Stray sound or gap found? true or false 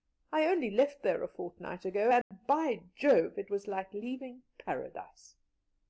true